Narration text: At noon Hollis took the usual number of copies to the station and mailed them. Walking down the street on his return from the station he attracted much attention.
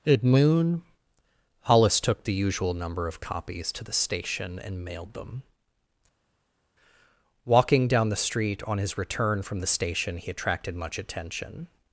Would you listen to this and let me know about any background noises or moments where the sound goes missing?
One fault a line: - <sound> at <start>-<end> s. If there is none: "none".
none